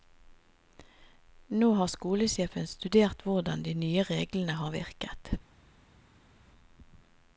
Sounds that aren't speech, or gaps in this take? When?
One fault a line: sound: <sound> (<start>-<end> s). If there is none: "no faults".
no faults